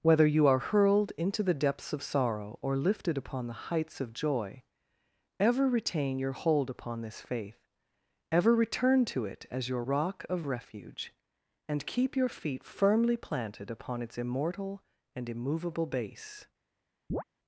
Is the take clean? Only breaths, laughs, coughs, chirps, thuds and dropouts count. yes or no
no